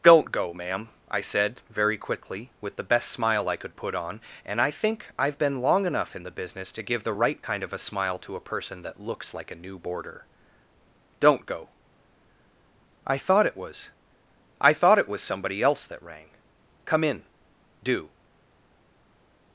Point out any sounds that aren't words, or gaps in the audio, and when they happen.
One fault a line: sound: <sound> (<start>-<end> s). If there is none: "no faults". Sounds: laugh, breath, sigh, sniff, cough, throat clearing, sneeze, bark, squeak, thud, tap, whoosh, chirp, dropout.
no faults